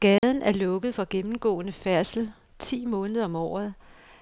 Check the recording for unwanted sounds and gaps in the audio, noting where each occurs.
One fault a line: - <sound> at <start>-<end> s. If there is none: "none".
- dropout at 0.2-0.2 s